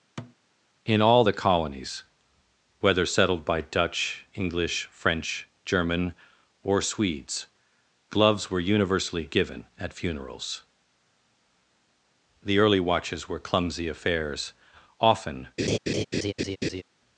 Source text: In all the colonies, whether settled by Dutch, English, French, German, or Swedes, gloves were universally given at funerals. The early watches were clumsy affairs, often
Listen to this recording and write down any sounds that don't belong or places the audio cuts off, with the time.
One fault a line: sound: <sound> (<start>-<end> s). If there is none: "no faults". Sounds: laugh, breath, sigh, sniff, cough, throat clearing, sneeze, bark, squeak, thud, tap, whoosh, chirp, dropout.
sound: thud (0.2-0.4 s)
sound: laugh (15.6-16.8 s)